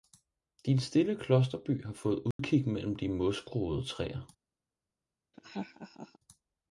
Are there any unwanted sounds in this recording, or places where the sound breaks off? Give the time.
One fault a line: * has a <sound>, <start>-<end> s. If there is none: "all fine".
* has a dropout, 2.3-2.4 s
* has a laugh, 5.3-6.2 s